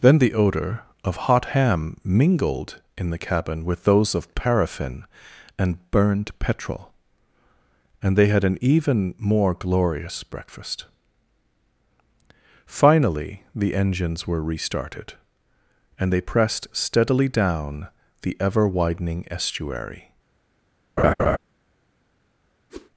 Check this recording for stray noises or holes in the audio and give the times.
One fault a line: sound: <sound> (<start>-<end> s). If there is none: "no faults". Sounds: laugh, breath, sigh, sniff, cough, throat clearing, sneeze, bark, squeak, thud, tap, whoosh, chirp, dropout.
sound: laugh (21.0-21.4 s)
sound: whoosh (22.7-22.9 s)